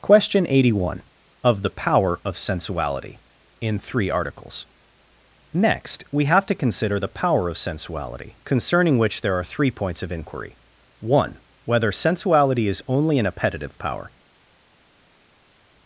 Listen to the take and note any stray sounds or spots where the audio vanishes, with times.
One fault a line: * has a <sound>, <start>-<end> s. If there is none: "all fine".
all fine